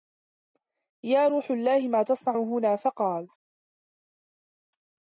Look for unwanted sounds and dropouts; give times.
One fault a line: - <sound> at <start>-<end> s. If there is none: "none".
none